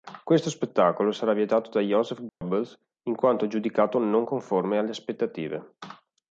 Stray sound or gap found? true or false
true